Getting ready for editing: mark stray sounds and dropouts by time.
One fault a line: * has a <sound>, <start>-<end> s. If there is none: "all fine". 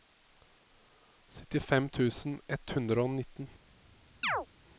* has a chirp, 4.2-4.5 s